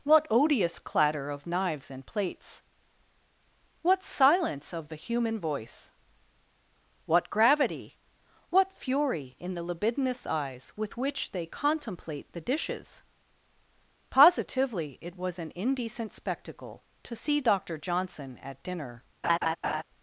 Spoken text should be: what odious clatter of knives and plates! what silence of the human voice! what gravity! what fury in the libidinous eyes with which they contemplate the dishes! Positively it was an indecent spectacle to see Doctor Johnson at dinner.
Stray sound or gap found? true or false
true